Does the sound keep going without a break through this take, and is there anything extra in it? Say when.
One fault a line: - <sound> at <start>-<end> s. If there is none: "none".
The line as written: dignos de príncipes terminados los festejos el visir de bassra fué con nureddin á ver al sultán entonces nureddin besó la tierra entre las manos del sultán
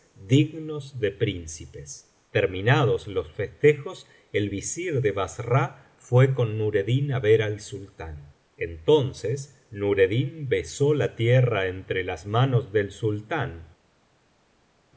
none